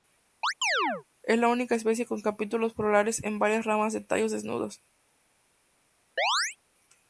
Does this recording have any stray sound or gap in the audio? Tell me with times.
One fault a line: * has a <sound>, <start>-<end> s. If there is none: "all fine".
* has a chirp, 0.4-1.0 s
* has a chirp, 6.2-6.6 s